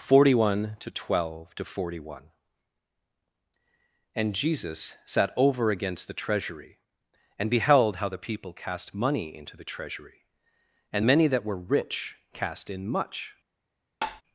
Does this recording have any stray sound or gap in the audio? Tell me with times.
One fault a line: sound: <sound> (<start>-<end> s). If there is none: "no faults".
sound: tap (14.0-14.2 s)